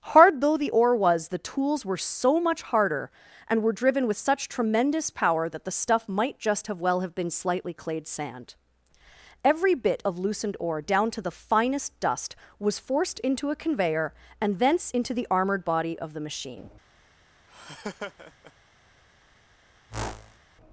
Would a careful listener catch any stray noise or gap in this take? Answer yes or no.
yes